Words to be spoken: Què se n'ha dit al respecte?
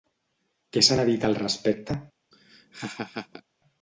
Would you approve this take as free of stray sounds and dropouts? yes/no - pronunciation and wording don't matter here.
no